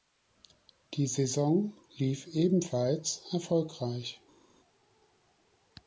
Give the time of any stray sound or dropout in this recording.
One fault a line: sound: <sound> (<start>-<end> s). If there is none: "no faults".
no faults